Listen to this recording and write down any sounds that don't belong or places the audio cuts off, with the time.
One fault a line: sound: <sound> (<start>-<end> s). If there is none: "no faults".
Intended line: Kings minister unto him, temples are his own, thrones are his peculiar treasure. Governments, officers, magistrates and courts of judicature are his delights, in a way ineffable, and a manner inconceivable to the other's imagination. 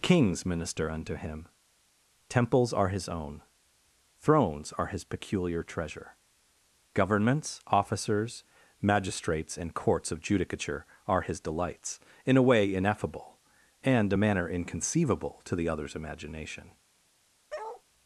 sound: bark (17.5-17.8 s)